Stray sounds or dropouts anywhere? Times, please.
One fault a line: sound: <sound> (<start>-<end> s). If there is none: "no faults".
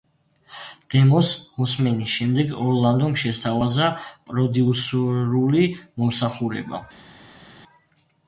no faults